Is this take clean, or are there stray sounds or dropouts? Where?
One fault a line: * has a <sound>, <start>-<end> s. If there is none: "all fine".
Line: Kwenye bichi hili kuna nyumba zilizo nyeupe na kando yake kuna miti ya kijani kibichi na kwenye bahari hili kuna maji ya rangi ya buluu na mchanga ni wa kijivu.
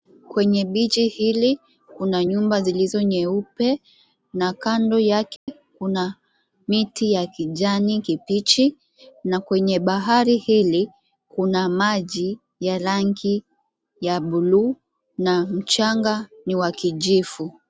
* has a dropout, 5.4-5.5 s